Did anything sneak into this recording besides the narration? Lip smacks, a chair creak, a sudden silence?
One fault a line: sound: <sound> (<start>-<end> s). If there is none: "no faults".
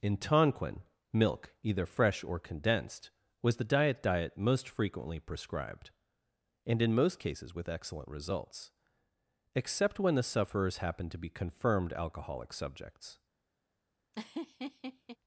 sound: laugh (14.1-15.2 s)